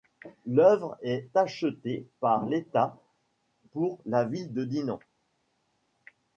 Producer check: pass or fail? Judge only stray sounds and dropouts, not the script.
pass